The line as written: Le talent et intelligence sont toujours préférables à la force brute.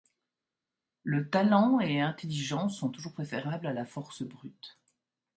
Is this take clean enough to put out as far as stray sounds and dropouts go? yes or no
yes